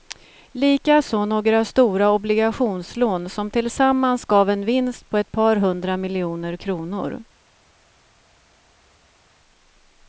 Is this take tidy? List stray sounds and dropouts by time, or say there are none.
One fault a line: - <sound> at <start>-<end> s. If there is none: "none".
none